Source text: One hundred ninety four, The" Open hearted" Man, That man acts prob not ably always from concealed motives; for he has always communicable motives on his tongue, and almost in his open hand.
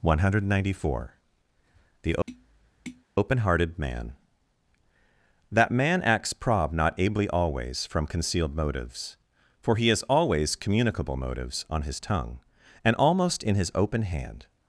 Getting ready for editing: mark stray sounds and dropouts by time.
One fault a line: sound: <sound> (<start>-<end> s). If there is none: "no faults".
sound: tap (2.3-3.0 s)